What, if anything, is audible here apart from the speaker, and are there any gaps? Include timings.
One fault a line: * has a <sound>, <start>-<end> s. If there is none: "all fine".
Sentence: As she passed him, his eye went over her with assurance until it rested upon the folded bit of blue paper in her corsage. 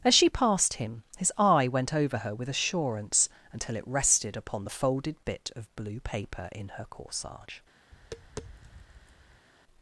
* has a tap, 7.9-9.5 s